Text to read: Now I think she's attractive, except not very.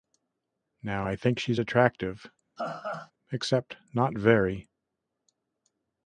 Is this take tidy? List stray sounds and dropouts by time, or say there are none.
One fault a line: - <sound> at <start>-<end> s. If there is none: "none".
- laugh at 2.6-3.1 s